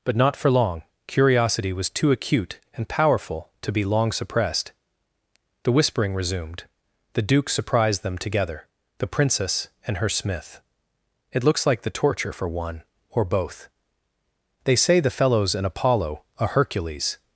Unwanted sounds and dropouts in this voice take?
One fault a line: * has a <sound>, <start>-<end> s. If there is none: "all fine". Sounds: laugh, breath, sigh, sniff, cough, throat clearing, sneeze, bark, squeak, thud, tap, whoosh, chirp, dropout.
all fine